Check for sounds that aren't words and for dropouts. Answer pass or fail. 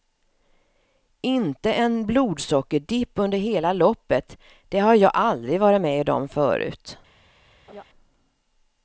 fail